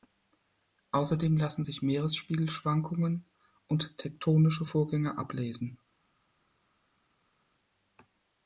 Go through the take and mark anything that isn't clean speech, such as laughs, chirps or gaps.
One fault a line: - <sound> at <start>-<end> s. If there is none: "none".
none